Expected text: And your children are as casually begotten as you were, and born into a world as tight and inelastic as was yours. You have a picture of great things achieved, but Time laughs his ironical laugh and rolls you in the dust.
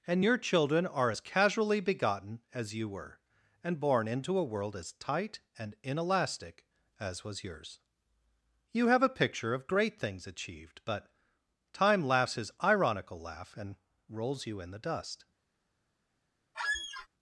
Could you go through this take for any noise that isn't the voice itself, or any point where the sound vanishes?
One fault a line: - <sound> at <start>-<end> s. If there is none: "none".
- squeak at 16.5-17.1 s